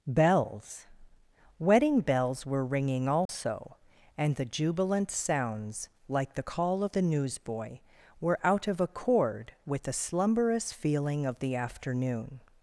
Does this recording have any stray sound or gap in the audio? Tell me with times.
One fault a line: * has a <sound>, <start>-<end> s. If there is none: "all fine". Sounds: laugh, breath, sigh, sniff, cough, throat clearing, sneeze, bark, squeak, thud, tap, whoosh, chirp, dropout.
* has a dropout, 3.3-3.3 s